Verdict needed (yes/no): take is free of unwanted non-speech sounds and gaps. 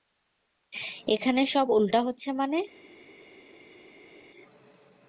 yes